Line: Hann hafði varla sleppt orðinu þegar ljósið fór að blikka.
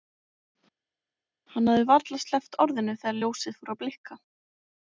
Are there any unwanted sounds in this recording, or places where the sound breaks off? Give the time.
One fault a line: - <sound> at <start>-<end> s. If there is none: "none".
none